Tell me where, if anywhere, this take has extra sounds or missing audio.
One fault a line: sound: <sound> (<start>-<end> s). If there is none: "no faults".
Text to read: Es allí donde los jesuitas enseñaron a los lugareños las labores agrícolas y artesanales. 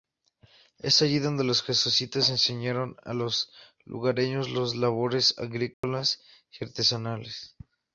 sound: dropout (5.7-5.8 s)